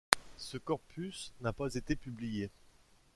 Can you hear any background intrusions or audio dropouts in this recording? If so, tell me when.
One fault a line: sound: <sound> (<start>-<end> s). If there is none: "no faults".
no faults